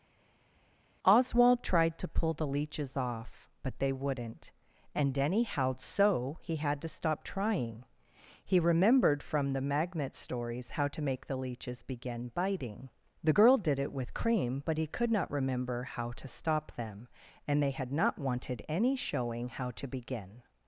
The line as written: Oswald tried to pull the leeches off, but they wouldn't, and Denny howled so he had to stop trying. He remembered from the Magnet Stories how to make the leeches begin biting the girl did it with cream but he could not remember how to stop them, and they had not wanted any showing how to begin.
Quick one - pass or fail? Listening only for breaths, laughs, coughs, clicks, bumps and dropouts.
pass